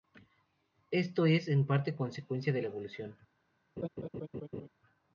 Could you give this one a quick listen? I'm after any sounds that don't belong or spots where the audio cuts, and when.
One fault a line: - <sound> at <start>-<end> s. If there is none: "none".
- laugh at 3.8-4.7 s